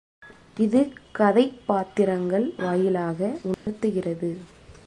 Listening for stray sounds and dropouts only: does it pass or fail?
fail